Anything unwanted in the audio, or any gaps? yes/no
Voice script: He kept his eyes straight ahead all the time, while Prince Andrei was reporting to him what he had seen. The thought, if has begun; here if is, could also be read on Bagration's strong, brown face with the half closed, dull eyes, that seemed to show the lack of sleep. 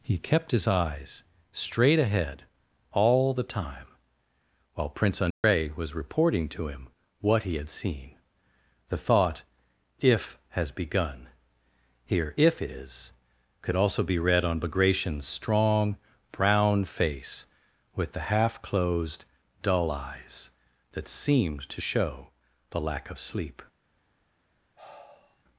yes